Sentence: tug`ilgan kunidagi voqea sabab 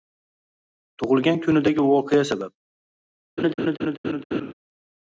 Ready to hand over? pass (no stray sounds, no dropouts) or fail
fail